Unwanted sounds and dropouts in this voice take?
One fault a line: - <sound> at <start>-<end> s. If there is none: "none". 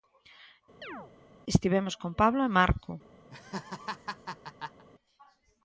- chirp at 0.8-1.1 s
- laugh at 3.3-4.8 s